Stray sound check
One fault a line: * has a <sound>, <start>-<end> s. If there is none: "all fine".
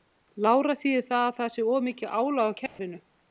* has a dropout, 2.7-2.8 s